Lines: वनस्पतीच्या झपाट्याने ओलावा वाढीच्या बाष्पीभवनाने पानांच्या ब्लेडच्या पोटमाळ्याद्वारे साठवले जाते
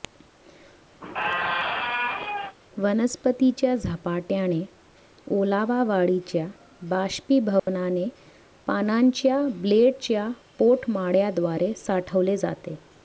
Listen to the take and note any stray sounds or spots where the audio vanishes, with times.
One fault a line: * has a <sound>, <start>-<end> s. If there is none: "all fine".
* has a squeak, 1.0-2.6 s
* has a dropout, 7.6-7.7 s